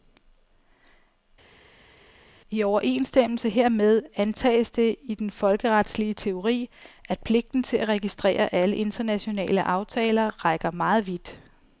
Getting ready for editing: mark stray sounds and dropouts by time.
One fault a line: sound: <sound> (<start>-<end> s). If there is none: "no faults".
no faults